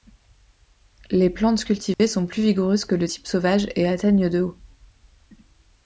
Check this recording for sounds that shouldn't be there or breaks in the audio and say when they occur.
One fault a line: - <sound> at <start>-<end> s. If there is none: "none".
- dropout at 1.9-2.0 s